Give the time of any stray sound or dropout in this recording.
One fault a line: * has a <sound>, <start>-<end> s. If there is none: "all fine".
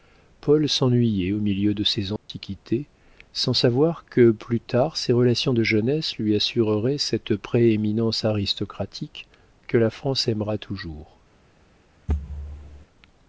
* has a dropout, 2.2-2.3 s
* has a thud, 12.1-12.9 s